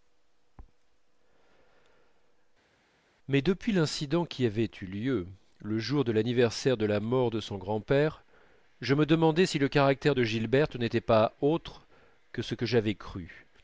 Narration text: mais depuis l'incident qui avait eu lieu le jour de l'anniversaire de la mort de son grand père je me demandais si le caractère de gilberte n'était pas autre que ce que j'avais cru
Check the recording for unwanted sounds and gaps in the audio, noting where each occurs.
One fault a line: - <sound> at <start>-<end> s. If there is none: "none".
none